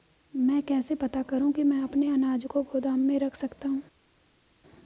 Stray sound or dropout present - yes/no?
no